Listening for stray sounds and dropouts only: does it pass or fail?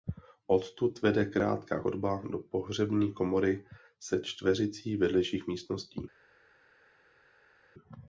pass